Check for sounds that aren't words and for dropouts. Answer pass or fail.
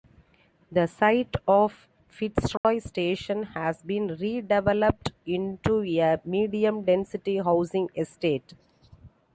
fail